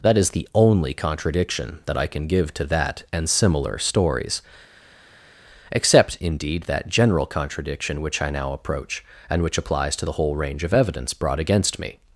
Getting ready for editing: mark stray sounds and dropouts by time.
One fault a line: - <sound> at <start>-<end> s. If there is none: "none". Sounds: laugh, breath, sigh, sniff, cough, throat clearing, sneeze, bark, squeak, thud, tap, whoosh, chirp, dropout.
none